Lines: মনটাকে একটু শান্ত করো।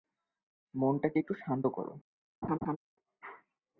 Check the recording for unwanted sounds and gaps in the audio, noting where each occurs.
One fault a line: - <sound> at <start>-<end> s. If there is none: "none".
- laugh at 2.4-2.8 s